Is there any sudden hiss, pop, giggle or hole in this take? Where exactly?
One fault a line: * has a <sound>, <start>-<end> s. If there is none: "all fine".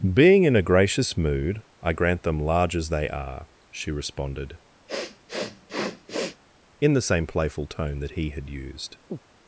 * has a sniff, 4.9-6.4 s
* has a chirp, 9.1-9.2 s